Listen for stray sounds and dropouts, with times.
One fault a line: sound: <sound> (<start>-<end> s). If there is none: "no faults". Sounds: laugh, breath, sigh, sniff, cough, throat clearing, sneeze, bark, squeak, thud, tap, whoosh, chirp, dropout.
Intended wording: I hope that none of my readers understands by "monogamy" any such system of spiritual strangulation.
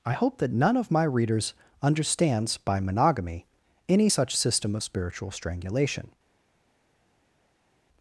no faults